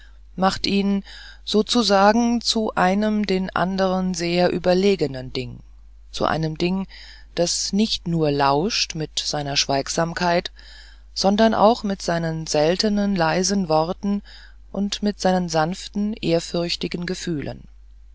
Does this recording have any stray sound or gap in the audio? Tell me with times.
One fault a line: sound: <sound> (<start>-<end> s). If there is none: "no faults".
no faults